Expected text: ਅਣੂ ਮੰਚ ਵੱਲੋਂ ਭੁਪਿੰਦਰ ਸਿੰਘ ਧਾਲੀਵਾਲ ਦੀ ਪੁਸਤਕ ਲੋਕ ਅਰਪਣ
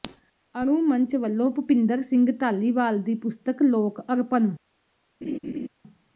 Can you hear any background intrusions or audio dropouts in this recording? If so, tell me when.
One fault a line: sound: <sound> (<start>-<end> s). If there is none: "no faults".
sound: laugh (5.2-5.7 s)